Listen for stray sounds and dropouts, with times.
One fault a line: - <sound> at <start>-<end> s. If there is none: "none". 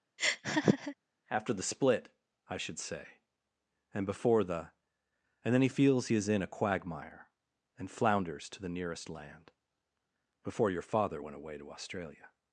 - laugh at 0.2-1.0 s